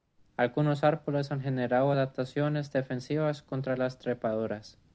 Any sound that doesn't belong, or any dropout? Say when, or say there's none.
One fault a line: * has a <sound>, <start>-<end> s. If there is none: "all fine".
all fine